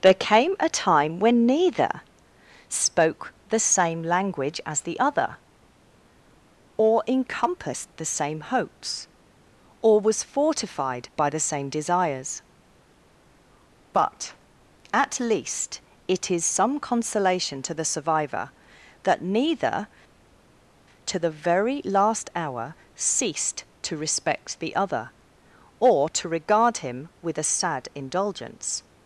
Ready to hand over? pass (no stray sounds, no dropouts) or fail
pass